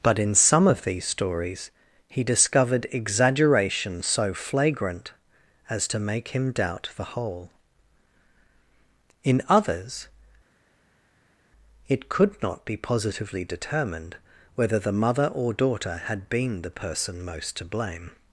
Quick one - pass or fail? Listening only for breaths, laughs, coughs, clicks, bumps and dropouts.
pass